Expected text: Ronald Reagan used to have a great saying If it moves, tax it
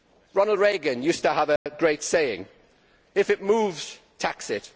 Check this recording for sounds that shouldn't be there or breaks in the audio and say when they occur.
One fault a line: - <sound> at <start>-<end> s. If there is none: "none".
- dropout at 1.6-1.7 s